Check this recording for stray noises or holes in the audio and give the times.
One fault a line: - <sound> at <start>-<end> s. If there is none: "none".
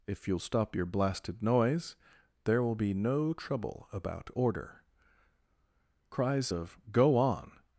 none